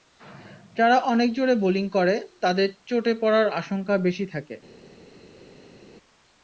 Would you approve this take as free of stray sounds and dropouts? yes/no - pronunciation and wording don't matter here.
yes